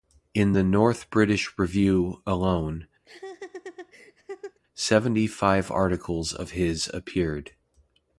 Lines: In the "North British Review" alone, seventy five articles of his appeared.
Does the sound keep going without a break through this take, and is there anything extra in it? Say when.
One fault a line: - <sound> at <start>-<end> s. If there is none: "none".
- laugh at 3.0-4.6 s